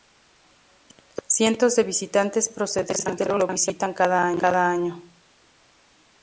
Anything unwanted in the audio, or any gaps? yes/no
no